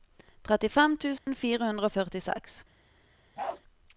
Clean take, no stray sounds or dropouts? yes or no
no